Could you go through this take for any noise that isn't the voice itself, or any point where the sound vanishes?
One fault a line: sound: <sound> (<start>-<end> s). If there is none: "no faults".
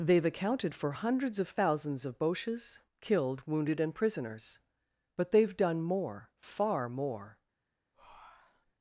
sound: breath (7.9-8.7 s)